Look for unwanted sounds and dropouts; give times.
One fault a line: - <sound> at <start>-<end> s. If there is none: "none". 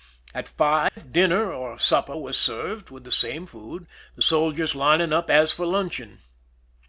- dropout at 0.9-1.0 s